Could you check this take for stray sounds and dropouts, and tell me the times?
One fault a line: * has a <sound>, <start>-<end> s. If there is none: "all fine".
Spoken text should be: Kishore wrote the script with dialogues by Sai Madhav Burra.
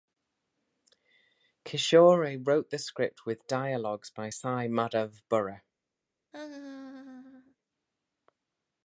* has a laugh, 6.3-7.6 s